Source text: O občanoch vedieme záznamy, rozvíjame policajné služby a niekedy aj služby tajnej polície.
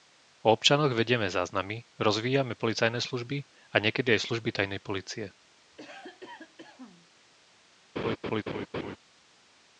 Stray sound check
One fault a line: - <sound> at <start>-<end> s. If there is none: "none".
- cough at 5.7-7.1 s
- laugh at 8.0-9.0 s